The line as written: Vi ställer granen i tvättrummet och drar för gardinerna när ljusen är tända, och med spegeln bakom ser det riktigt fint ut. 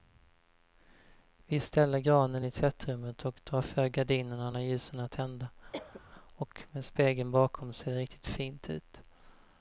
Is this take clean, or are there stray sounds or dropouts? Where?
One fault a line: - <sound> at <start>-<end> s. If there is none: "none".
- cough at 5.7-6.0 s